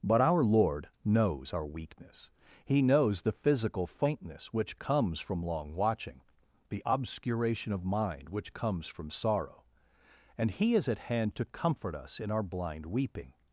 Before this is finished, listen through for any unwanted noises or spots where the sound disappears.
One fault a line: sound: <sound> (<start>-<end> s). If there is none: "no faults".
no faults